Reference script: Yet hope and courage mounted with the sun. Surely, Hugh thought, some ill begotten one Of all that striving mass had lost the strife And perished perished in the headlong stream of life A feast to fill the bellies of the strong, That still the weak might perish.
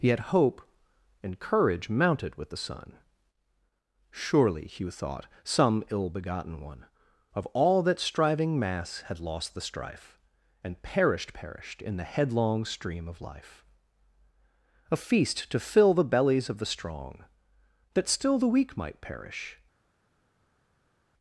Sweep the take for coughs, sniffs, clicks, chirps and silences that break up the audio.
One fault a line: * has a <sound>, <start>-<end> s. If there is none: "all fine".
all fine